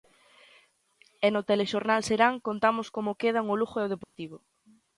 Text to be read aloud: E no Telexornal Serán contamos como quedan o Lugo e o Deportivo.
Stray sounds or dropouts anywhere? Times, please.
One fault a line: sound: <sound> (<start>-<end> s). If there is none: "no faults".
sound: dropout (4.0-4.2 s)